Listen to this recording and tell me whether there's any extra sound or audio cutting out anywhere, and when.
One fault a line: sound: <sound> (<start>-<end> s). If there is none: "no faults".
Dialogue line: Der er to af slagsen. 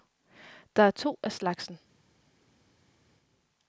no faults